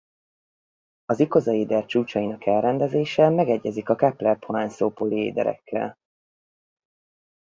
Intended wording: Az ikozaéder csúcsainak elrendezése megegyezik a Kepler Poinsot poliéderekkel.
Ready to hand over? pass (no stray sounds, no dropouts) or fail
pass